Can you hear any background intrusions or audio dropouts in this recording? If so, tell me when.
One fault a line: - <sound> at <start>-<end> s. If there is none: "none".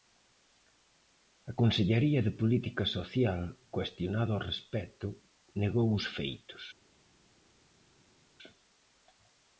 none